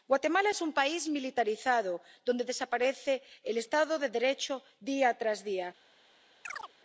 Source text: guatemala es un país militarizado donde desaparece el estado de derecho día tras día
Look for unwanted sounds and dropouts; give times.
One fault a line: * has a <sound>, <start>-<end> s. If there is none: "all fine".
* has a chirp, 6.4-6.7 s